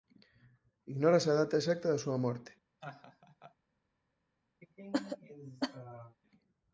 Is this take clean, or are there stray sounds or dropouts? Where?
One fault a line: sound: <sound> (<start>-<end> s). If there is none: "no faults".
sound: laugh (2.8-3.6 s)
sound: cough (4.6-6.2 s)